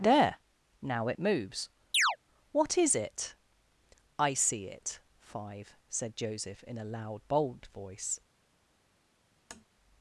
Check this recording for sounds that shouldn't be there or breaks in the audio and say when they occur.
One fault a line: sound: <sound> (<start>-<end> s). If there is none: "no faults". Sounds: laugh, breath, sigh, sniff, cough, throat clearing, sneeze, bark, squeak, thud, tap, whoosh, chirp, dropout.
sound: chirp (1.9-2.2 s)
sound: tap (9.5-9.7 s)